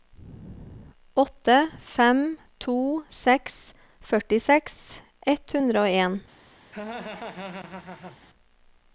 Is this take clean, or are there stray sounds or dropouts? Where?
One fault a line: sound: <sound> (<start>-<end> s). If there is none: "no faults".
sound: laugh (6.7-8.2 s)